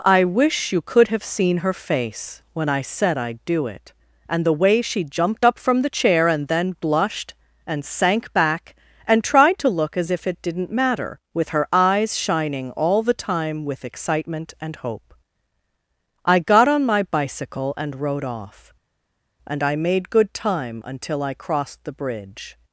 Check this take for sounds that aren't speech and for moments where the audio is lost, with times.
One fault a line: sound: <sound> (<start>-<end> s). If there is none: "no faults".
no faults